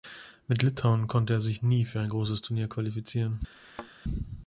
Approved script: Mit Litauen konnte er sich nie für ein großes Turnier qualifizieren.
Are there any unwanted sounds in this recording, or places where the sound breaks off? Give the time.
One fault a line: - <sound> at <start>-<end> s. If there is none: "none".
- thud at 3.5-3.9 s